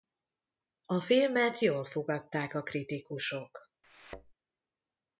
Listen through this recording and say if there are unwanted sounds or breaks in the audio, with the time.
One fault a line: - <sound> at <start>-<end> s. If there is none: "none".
- thud at 3.8-4.3 s